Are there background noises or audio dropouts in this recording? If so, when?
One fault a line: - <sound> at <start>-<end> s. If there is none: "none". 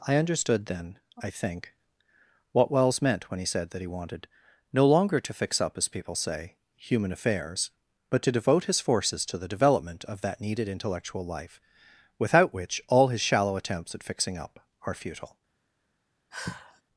- sigh at 16.3-16.8 s